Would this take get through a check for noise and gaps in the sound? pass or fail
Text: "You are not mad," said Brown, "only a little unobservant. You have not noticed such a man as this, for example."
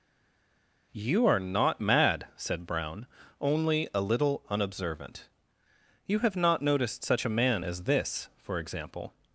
pass